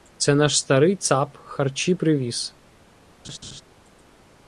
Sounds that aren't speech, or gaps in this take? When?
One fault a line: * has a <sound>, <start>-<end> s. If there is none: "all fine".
* has a laugh, 3.2-3.6 s